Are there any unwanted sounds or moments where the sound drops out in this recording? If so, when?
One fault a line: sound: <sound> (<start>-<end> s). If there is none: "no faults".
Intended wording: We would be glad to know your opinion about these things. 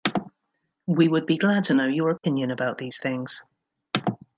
no faults